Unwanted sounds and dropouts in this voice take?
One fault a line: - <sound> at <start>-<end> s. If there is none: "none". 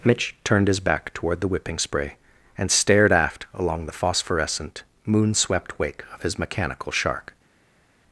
none